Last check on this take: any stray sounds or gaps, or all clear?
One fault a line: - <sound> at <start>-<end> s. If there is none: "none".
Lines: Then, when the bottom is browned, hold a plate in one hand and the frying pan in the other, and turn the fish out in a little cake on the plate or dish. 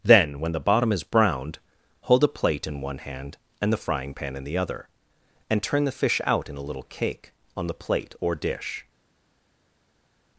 none